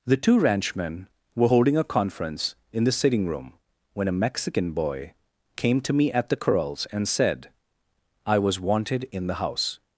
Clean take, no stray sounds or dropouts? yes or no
yes